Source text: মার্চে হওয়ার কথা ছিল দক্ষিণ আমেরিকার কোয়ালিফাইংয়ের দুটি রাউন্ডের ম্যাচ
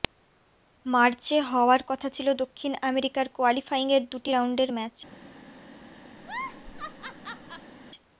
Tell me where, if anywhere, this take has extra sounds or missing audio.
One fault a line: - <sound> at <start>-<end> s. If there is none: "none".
- laugh at 6.2-7.7 s